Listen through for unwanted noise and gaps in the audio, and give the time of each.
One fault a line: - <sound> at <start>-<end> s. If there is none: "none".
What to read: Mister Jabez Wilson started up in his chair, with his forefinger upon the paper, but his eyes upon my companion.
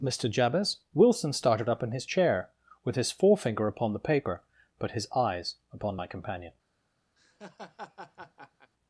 - laugh at 7.2-8.7 s